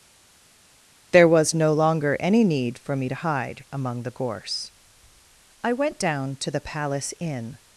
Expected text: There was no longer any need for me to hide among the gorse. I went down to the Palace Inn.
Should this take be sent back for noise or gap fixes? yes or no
no